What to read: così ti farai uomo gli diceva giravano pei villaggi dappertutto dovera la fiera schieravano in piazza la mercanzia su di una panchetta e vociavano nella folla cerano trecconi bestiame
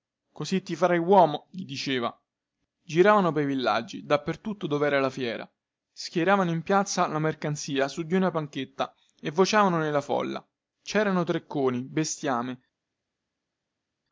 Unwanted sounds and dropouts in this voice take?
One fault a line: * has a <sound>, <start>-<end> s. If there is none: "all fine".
all fine